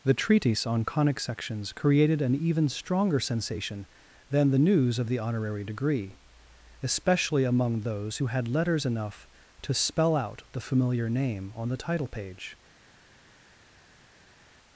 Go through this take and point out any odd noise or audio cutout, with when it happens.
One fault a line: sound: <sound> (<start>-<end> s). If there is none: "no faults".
no faults